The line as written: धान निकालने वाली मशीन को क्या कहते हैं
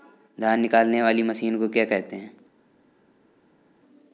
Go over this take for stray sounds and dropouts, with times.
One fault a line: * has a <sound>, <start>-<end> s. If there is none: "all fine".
all fine